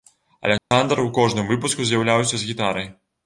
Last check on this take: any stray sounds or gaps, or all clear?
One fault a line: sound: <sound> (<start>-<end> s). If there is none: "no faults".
sound: dropout (0.6-0.7 s)